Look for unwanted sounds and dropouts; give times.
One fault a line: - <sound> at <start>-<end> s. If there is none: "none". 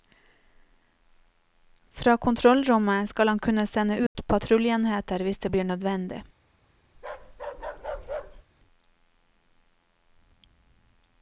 - dropout at 4.1-4.2 s
- bark at 6.9-8.4 s